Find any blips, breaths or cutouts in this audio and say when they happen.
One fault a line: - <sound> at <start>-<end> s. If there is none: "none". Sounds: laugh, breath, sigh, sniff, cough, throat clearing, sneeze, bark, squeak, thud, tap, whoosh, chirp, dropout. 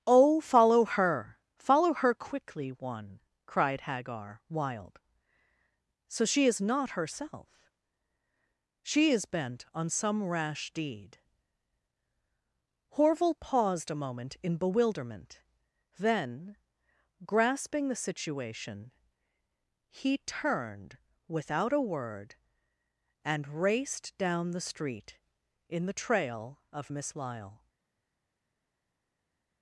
none